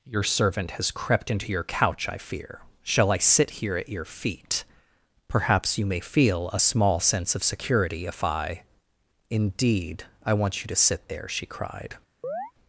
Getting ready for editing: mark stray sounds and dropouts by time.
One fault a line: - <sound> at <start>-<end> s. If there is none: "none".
- chirp at 12.2-12.5 s